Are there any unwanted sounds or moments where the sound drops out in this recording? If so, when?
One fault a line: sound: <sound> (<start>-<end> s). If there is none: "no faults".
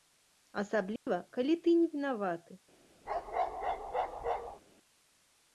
sound: dropout (1.0-1.1 s)
sound: bark (3.1-4.6 s)